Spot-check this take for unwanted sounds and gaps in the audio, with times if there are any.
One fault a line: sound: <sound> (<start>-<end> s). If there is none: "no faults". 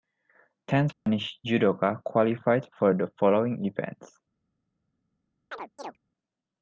sound: dropout (0.9-1.1 s)
sound: chirp (5.5-6.0 s)